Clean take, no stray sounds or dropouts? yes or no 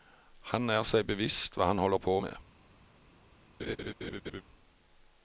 no